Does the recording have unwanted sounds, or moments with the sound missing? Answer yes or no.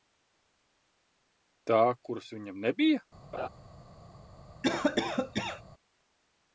yes